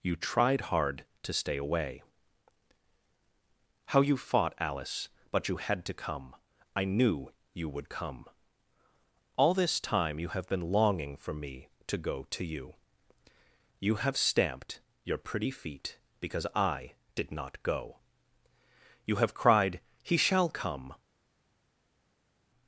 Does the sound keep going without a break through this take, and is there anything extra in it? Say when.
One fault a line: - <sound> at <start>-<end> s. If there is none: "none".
none